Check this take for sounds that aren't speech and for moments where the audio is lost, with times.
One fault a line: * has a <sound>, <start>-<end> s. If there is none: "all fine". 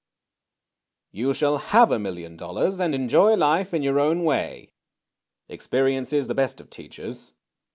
all fine